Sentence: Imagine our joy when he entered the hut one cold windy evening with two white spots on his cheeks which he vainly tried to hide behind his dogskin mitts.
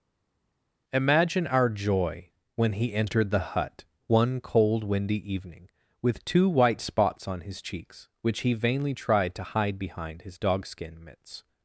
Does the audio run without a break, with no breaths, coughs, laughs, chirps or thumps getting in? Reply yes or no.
yes